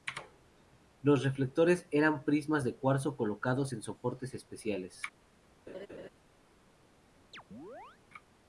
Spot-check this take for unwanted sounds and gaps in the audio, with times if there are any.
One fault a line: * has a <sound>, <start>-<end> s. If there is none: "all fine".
* has a laugh, 5.7-6.1 s
* has a chirp, 7.3-8.0 s